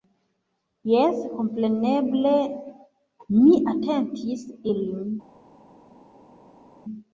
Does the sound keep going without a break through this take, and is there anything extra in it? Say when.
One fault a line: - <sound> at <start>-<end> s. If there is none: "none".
none